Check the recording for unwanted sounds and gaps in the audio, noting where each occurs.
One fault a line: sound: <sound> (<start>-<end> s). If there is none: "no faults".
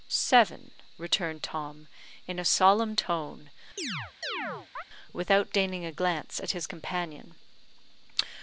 sound: chirp (3.8-4.8 s)